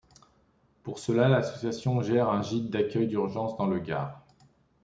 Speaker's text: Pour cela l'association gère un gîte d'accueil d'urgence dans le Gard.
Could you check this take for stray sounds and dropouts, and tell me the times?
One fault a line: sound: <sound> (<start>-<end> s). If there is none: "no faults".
no faults